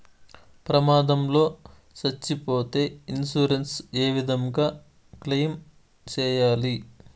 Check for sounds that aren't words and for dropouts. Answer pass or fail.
pass